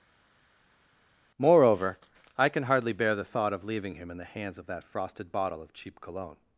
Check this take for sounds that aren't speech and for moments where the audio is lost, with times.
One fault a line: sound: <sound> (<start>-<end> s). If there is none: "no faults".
no faults